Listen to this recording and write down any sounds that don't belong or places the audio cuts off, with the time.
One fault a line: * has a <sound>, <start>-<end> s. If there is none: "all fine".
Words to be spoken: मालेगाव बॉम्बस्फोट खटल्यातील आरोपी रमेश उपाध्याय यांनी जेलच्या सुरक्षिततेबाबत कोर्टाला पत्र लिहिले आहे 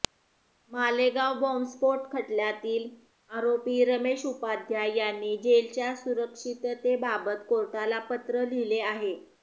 all fine